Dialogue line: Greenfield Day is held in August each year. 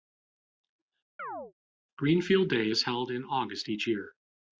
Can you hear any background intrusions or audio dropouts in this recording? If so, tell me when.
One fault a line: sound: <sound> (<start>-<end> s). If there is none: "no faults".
sound: chirp (1.2-1.5 s)